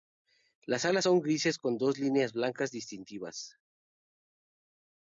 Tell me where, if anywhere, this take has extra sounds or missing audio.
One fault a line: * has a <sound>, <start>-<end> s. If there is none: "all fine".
all fine